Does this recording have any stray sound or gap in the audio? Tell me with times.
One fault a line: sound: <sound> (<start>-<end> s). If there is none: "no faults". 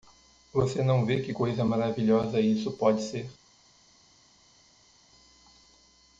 no faults